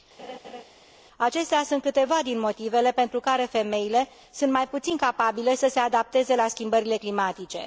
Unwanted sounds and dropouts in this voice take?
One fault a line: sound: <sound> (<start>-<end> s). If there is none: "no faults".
sound: laugh (0.2-0.6 s)